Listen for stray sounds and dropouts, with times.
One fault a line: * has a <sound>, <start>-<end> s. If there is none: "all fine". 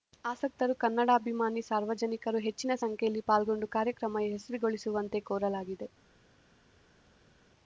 all fine